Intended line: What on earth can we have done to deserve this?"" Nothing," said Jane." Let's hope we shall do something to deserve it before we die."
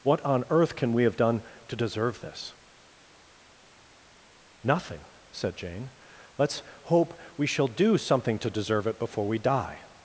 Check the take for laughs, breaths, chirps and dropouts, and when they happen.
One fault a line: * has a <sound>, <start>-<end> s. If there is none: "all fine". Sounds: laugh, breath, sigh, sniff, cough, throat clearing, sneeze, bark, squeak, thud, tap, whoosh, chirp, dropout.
all fine